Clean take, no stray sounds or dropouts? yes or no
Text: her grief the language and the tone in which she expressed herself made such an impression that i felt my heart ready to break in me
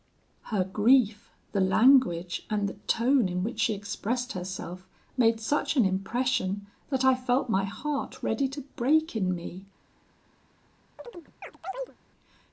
no